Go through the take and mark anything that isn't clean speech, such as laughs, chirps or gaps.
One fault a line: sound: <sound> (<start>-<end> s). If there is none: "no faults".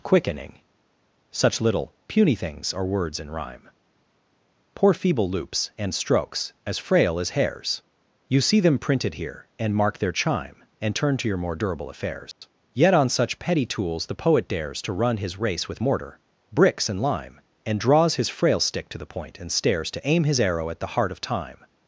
sound: dropout (12.3-12.4 s)